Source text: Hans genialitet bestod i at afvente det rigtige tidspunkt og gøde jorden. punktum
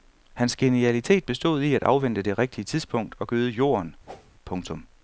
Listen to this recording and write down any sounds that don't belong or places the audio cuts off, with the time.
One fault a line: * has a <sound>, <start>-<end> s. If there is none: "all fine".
* has a whoosh, 4.1-4.3 s